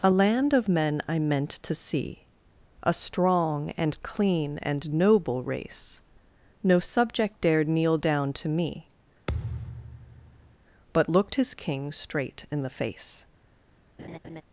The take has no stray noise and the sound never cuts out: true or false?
false